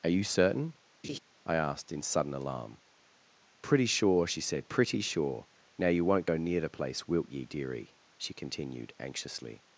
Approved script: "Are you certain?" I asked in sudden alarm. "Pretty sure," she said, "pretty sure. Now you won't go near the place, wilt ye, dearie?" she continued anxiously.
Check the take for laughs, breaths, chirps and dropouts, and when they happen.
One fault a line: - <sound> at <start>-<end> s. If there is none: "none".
- laugh at 1.0-1.2 s